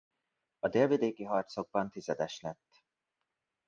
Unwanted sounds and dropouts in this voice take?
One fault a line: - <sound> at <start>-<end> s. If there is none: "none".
none